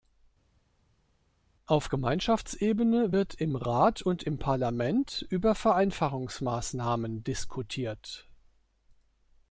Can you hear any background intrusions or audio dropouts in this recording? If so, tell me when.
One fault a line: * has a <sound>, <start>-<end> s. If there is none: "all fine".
all fine